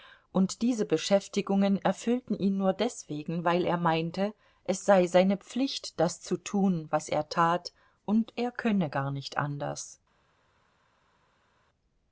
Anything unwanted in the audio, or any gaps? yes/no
no